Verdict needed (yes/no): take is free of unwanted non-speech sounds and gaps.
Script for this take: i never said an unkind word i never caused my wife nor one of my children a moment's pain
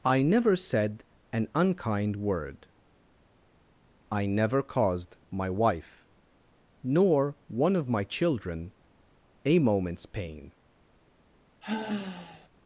no